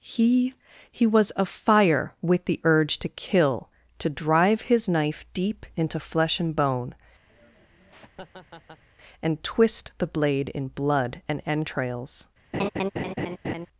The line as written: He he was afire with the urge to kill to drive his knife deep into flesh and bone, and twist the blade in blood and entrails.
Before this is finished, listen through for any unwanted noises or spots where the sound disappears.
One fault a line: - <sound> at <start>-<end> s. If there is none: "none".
- laugh at 7.3-8.8 s
- laugh at 12.5-13.7 s